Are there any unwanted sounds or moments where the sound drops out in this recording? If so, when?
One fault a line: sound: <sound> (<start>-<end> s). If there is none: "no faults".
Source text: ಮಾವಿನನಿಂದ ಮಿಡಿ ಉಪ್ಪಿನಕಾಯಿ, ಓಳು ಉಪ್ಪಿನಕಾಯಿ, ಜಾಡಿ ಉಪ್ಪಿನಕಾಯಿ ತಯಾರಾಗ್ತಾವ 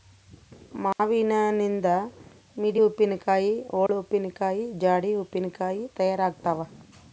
sound: dropout (0.9-1.0 s)
sound: dropout (3.9-3.9 s)